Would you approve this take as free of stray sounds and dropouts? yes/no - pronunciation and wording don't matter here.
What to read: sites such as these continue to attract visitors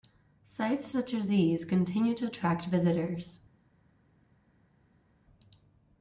yes